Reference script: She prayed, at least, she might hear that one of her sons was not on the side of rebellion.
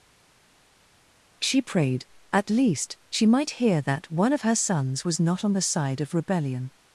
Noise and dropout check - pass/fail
pass